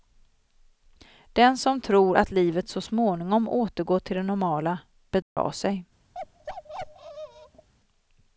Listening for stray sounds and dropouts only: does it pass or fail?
fail